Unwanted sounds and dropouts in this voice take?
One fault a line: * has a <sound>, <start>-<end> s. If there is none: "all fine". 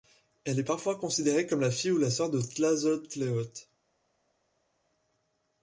all fine